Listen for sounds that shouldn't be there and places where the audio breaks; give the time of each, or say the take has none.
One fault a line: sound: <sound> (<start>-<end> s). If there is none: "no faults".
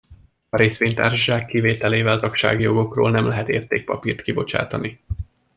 no faults